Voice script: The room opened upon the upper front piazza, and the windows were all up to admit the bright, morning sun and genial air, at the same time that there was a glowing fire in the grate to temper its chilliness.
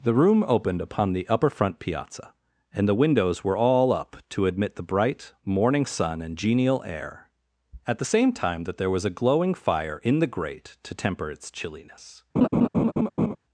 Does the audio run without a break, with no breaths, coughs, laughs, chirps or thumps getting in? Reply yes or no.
no